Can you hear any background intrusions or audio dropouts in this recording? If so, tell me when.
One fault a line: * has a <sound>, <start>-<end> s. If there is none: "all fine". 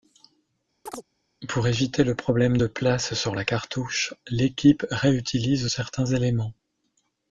* has a chirp, 0.9-1.0 s